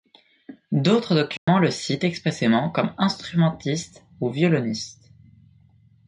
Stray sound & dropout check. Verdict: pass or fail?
fail